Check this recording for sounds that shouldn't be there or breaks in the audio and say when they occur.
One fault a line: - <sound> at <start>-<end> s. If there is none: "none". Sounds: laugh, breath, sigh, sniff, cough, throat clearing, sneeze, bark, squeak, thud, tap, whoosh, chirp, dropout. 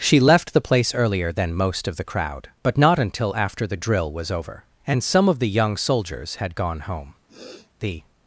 - sniff at 7.3-7.7 s